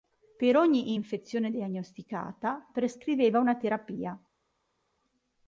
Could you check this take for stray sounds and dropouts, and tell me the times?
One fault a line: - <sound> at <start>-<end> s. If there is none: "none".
none